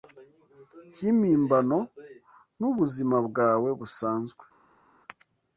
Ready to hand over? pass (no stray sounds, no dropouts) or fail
pass